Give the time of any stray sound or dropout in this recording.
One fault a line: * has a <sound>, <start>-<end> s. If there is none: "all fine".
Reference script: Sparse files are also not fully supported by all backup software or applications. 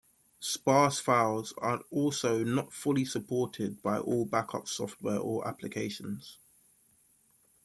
all fine